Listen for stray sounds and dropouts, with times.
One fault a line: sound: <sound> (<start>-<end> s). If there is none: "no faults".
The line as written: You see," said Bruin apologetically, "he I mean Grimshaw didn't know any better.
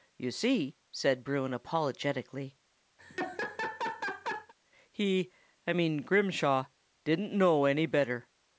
sound: laugh (3.0-4.5 s)